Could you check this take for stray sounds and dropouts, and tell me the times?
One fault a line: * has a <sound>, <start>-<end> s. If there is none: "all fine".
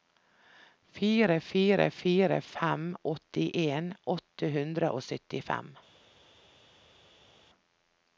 all fine